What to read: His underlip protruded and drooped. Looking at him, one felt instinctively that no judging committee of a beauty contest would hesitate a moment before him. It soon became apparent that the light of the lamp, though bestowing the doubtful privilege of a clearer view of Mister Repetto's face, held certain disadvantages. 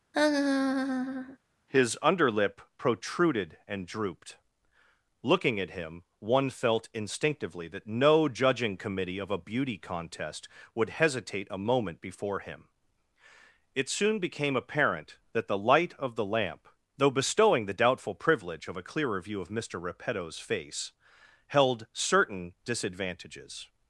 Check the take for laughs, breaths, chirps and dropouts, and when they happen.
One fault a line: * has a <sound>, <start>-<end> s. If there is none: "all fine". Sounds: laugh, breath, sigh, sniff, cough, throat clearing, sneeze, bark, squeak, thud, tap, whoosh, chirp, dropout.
* has a laugh, 0.1-1.4 s